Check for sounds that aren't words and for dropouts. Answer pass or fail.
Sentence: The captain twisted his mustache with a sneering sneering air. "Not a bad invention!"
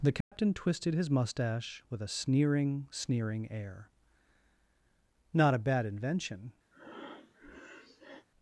fail